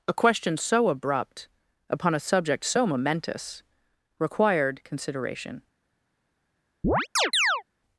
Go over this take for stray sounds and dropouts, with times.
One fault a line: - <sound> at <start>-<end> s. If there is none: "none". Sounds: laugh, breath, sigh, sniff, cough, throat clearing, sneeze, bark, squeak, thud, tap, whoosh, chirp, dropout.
- chirp at 6.8-7.6 s